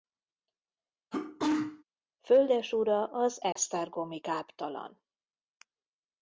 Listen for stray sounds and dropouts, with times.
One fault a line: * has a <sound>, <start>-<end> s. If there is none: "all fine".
* has a sneeze, 1.1-1.8 s
* has a dropout, 3.5-3.6 s